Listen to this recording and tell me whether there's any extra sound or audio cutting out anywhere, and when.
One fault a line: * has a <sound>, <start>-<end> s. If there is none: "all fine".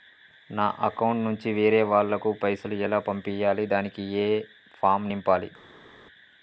all fine